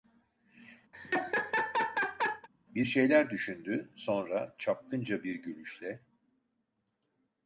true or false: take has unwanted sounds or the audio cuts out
true